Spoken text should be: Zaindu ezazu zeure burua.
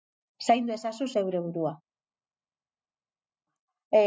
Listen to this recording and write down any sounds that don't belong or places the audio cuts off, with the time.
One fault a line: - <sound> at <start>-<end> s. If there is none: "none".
none